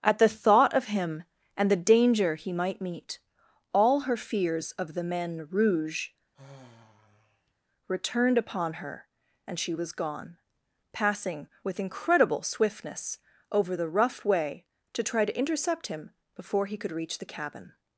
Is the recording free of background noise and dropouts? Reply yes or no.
no